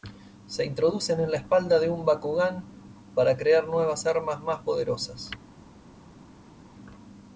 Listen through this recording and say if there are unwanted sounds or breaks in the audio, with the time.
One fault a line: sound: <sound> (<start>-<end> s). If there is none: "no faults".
no faults